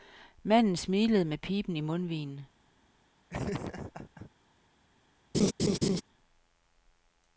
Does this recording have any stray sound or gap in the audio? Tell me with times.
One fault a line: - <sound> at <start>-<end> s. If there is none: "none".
- laugh at 3.3-4.3 s
- laugh at 5.3-6.0 s